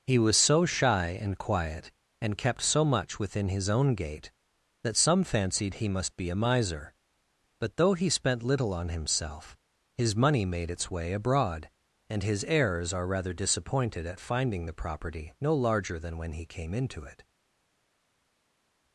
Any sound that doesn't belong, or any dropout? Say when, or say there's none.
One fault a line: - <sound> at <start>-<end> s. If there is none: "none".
none